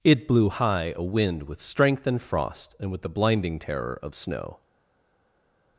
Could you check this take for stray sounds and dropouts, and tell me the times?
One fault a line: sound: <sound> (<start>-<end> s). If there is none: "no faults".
no faults